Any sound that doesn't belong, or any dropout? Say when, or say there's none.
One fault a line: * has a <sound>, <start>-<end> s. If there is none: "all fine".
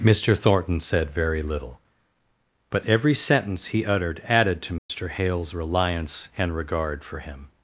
* has a dropout, 4.8-4.9 s